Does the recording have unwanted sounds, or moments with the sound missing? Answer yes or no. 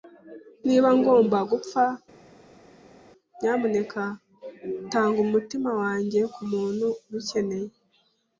no